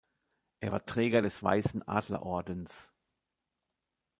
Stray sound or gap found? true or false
false